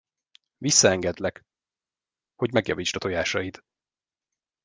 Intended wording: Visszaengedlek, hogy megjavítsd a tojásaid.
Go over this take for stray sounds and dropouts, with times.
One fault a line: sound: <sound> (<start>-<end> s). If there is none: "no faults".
no faults